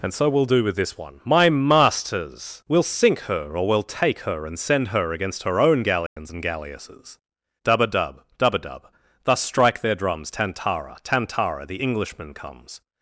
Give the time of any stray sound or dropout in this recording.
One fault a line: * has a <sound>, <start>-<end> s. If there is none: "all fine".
* has a dropout, 6.1-6.2 s